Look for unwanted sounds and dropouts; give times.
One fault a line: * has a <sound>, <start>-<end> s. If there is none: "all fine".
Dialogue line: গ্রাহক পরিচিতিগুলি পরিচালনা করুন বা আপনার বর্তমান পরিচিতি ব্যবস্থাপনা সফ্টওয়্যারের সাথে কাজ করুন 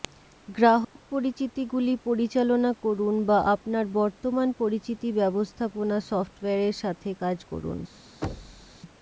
* has a dropout, 0.8-1.0 s
* has a thud, 8.2-8.8 s